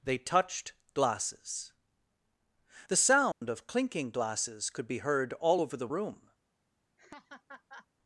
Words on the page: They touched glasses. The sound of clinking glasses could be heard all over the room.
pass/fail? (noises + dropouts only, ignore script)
fail